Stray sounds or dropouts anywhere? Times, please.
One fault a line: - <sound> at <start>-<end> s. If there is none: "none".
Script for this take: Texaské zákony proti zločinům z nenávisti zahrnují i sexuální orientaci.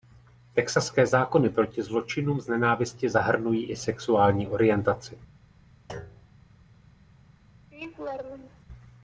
- thud at 5.9-6.4 s
- laugh at 7.7-8.7 s